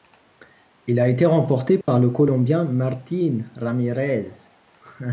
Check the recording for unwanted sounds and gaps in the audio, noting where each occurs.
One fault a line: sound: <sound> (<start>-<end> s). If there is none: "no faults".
sound: dropout (1.8-1.9 s)